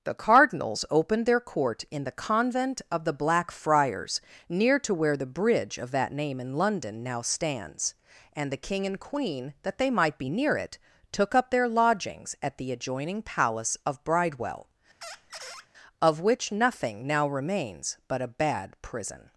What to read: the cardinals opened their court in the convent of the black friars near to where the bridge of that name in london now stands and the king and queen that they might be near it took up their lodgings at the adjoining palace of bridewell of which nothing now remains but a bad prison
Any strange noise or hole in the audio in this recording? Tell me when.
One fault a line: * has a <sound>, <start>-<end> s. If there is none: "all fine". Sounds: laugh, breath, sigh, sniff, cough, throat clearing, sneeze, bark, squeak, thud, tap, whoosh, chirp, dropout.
* has a squeak, 15.0-15.7 s